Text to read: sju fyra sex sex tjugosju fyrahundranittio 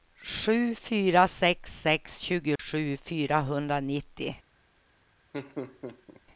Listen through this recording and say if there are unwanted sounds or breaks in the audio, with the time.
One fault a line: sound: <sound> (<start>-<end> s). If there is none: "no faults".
sound: dropout (2.6-2.6 s)
sound: laugh (5.3-6.2 s)